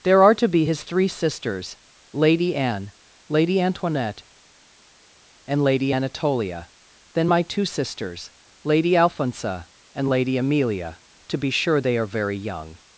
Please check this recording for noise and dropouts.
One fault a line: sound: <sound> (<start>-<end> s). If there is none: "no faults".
no faults